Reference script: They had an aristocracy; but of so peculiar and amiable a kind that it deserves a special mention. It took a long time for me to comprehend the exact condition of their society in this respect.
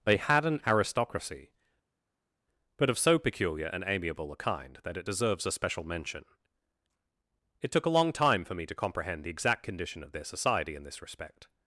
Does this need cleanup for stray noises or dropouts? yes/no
no